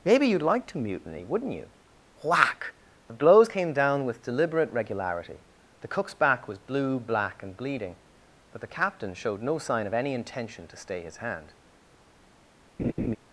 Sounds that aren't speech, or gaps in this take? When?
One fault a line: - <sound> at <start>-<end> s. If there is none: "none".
- laugh at 12.8-13.2 s